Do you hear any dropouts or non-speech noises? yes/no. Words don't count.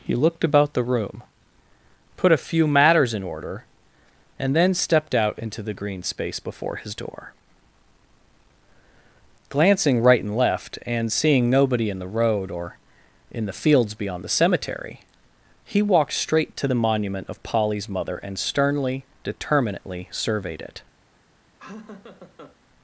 yes